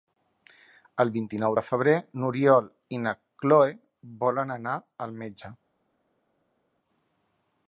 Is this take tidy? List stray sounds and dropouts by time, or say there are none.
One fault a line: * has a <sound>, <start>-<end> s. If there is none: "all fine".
all fine